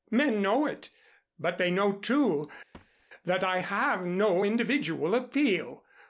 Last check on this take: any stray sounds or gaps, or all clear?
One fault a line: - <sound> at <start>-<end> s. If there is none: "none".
- thud at 2.7-3.1 s